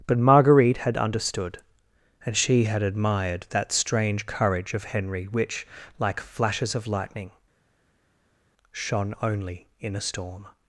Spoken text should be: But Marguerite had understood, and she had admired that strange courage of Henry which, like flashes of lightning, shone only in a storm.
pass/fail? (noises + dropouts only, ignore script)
pass